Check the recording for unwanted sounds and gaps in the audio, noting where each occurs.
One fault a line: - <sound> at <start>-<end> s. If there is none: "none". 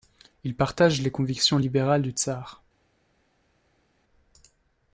none